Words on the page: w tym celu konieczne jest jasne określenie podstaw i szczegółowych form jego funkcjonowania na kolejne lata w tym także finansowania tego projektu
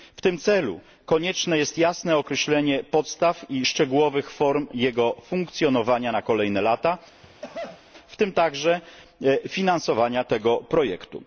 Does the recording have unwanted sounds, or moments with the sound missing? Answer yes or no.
yes